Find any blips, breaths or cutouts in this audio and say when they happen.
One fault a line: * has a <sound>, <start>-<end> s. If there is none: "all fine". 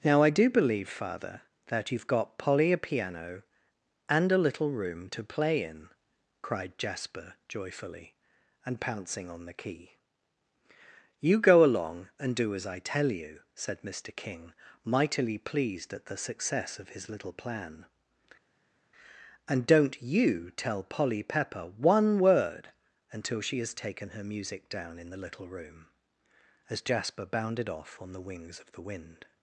all fine